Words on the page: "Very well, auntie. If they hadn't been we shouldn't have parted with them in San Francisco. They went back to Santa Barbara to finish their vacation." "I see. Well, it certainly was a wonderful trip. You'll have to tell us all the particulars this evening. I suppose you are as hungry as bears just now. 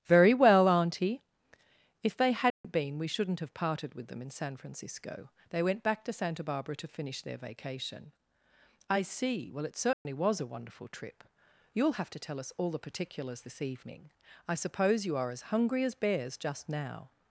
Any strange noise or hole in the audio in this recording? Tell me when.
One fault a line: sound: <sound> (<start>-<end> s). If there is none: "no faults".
sound: dropout (2.5-2.6 s)
sound: dropout (9.9-10.0 s)